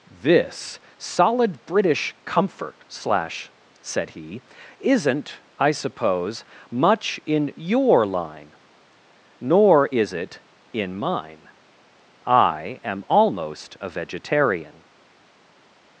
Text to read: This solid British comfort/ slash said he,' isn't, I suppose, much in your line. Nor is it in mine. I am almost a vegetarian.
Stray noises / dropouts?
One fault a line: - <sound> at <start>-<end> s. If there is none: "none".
none